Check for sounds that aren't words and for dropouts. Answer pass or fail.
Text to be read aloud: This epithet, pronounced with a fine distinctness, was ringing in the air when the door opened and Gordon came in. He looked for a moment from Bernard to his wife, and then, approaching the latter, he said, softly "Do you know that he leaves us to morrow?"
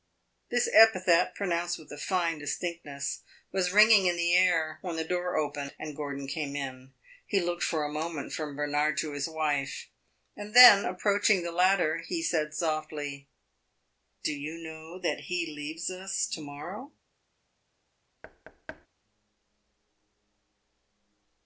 fail